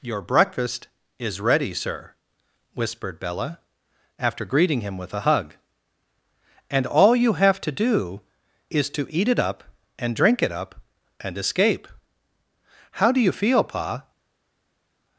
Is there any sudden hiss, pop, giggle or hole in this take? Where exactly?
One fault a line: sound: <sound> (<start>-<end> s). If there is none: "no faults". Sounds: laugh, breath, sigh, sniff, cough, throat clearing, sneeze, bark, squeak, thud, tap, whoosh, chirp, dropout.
no faults